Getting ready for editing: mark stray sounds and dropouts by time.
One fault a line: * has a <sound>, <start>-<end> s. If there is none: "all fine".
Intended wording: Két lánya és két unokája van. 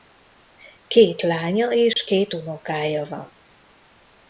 * has a dropout, 1.9-2.0 s